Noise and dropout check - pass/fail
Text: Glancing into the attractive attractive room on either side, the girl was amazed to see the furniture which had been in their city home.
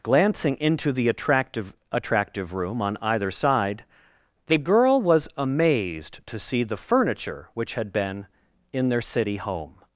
pass